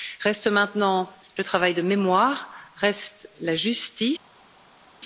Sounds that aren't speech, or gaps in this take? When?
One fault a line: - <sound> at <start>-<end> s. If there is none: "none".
none